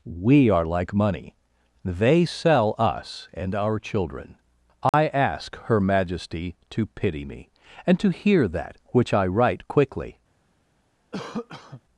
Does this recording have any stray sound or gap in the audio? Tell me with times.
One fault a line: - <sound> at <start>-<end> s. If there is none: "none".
- dropout at 4.9-4.9 s
- cough at 11.1-11.8 s